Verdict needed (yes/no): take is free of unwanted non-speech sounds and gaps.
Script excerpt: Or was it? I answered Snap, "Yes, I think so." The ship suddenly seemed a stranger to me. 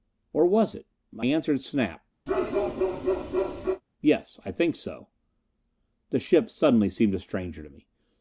no